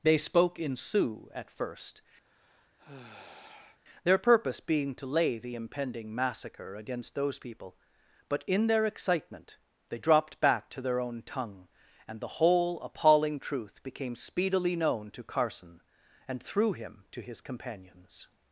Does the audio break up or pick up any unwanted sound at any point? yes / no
yes